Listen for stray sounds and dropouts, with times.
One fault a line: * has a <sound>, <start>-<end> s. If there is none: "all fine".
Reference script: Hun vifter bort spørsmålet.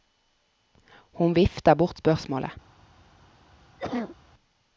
* has a cough, 3.8-4.2 s